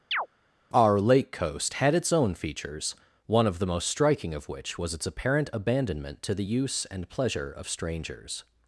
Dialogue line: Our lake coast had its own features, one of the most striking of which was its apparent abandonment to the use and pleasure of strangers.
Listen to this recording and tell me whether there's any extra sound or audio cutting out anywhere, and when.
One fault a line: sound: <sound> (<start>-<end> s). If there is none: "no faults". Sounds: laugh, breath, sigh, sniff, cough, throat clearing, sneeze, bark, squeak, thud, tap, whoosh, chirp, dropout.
sound: chirp (0.1-0.3 s)